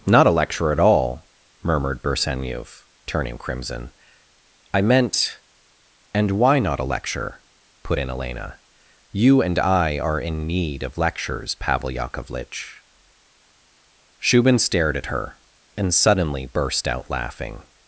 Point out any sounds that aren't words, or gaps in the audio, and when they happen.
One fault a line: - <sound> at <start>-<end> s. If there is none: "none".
none